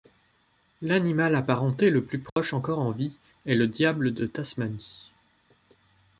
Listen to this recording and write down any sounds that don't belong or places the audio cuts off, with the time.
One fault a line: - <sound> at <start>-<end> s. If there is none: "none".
- dropout at 2.3-2.4 s